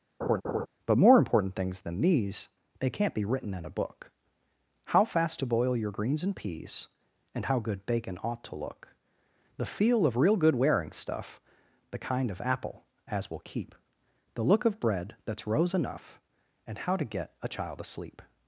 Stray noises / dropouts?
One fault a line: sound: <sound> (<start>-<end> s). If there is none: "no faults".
sound: laugh (0.2-0.7 s)